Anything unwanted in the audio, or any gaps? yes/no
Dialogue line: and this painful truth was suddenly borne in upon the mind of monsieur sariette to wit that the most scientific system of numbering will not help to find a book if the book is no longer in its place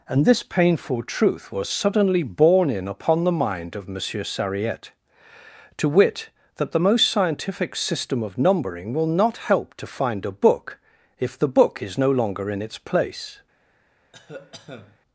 yes